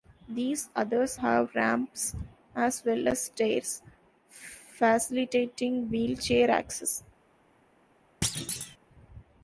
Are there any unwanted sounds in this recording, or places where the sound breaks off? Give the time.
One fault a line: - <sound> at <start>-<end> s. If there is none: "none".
- thud at 8.2-8.8 s